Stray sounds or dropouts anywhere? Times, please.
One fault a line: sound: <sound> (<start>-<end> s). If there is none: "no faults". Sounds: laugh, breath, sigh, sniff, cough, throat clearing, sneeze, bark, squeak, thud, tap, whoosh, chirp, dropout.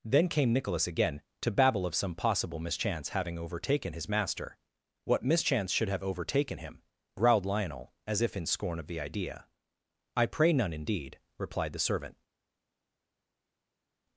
no faults